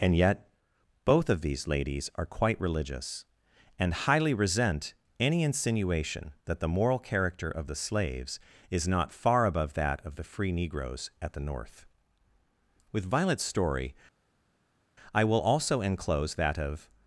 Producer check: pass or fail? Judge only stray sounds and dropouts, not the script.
pass